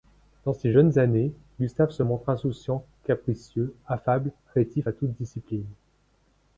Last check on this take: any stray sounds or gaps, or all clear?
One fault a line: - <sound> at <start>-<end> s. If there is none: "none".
none